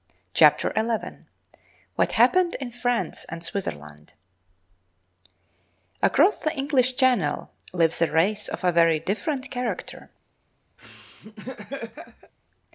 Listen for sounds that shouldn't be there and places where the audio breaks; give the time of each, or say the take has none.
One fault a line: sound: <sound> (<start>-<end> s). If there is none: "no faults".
sound: laugh (10.8-12.3 s)